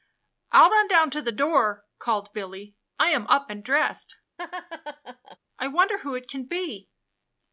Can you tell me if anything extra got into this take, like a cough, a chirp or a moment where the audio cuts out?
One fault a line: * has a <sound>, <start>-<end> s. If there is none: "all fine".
* has a laugh, 4.4-5.4 s